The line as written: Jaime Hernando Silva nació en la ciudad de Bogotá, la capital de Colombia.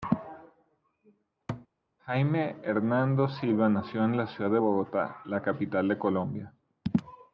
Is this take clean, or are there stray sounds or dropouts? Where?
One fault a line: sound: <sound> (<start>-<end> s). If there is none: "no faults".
sound: thud (1.5-1.7 s)